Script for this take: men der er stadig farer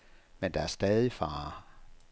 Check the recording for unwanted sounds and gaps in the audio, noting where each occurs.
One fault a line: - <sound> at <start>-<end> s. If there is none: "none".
none